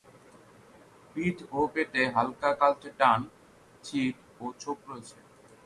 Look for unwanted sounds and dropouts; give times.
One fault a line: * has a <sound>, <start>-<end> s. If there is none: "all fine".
all fine